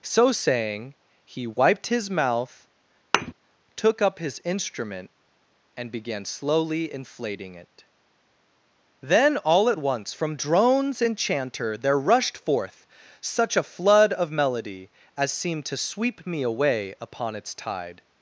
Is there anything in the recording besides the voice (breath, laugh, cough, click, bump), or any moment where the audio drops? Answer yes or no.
yes